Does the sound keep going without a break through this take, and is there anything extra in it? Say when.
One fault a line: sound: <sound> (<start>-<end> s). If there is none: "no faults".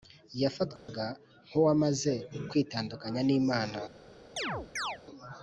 sound: dropout (0.8-0.9 s)
sound: chirp (4.4-5.0 s)